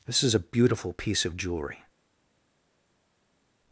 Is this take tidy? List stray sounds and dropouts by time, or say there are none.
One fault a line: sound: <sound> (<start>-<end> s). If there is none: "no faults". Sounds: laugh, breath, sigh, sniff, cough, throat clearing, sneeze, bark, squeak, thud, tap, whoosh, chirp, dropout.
no faults